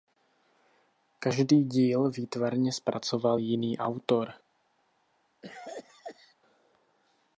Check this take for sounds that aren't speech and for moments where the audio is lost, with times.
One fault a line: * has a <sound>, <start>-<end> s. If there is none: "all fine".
* has a cough, 5.4-6.4 s